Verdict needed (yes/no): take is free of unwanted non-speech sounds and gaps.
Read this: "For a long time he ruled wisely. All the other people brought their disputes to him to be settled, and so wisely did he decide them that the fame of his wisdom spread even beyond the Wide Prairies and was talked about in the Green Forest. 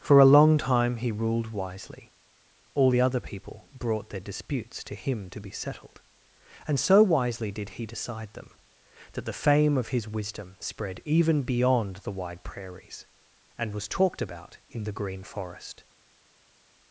yes